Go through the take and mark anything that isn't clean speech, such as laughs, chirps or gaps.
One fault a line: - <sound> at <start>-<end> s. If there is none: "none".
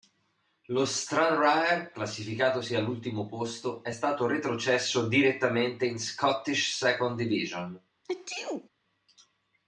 - sneeze at 8.0-8.7 s